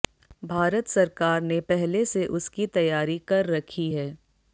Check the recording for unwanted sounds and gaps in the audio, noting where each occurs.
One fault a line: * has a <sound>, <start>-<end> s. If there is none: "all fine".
all fine